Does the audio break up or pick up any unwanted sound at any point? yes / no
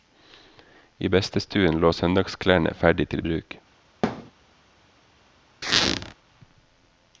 yes